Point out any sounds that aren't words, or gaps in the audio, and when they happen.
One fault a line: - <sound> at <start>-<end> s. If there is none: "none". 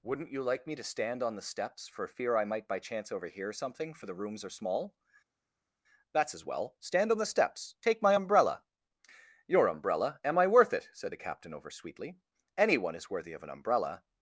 none